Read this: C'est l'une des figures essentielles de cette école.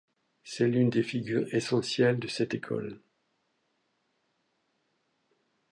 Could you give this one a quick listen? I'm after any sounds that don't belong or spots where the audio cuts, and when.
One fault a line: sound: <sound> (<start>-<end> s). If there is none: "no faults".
no faults